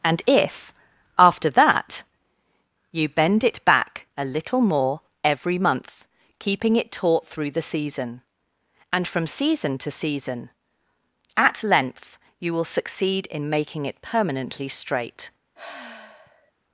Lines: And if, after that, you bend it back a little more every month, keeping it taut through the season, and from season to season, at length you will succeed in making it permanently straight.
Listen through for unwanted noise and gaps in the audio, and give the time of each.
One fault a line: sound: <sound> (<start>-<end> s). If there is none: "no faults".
sound: sigh (15.6-16.5 s)